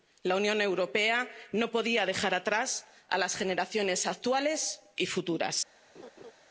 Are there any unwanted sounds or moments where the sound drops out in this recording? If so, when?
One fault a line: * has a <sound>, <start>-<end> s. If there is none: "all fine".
* has a laugh, 5.9-6.3 s